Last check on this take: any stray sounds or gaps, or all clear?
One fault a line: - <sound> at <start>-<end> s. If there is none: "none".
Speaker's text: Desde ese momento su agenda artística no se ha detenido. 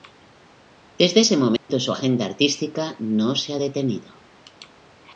- dropout at 1.6-1.7 s